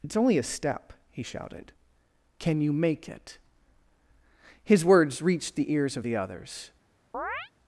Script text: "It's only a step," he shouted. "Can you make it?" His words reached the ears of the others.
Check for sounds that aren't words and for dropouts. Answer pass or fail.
fail